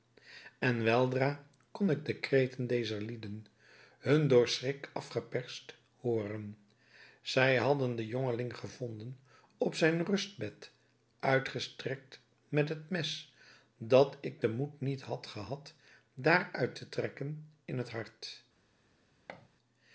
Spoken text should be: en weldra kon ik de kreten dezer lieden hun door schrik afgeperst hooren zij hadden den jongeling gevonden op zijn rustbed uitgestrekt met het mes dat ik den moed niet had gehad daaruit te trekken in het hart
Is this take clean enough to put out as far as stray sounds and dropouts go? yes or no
no